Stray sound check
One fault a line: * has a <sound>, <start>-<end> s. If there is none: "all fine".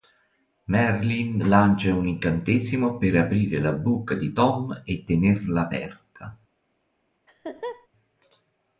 * has a laugh, 7.3-7.9 s